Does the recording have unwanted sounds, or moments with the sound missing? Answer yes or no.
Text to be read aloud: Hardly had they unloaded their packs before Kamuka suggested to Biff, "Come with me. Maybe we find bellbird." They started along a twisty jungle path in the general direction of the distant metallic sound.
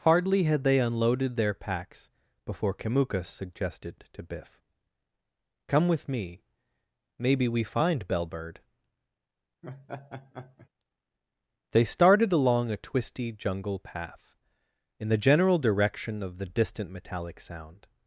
yes